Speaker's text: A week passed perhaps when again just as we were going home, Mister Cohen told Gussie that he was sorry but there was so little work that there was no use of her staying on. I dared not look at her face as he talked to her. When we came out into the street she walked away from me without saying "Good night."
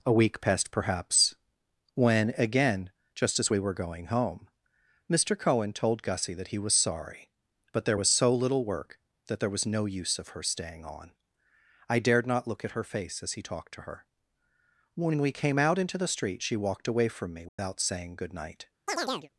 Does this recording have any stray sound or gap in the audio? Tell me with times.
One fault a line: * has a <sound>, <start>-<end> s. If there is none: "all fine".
* has a dropout, 17.5-17.6 s
* has a chirp, 18.9-19.3 s